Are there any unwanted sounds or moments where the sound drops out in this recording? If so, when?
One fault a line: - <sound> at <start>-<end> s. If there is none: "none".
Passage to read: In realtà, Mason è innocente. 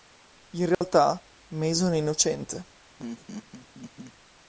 - dropout at 0.7-0.8 s
- laugh at 3.0-4.1 s